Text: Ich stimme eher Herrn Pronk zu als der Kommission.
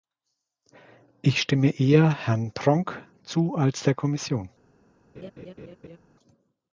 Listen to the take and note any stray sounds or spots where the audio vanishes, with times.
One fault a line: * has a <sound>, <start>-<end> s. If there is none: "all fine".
* has a laugh, 5.1-6.0 s